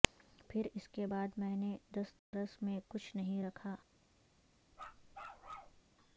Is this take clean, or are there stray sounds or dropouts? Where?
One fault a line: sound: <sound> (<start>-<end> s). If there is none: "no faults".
sound: dropout (2.2-2.3 s)
sound: bark (4.7-5.8 s)